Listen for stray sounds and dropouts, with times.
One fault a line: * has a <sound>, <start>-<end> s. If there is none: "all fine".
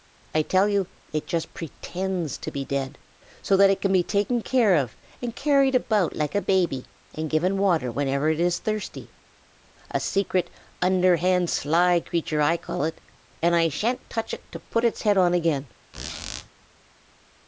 * has a squeak, 15.9-16.5 s